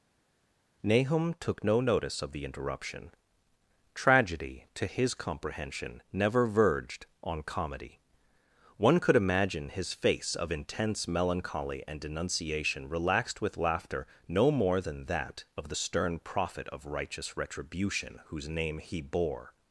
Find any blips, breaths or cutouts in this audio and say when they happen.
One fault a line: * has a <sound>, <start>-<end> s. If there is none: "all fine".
all fine